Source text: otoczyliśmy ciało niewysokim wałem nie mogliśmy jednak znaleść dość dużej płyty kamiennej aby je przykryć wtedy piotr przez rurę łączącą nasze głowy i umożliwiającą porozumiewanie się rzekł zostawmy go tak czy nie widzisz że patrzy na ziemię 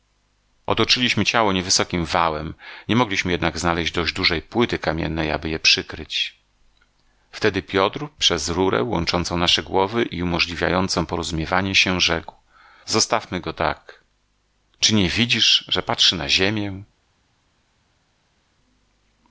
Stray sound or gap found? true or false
false